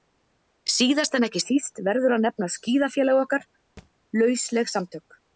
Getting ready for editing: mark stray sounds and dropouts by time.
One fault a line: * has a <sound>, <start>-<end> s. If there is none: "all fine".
* has a thud, 3.8-3.9 s